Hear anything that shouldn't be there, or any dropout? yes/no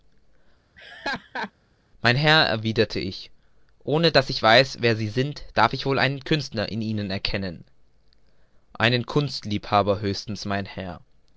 yes